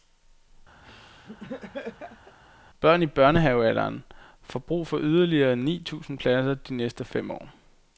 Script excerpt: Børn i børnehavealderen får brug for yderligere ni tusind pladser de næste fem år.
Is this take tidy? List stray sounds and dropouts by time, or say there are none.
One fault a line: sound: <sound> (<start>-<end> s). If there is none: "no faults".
sound: laugh (0.8-2.4 s)